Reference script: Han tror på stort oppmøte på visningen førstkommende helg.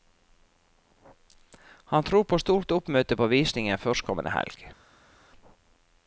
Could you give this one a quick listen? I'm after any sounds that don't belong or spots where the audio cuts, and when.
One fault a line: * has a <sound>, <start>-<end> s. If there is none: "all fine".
all fine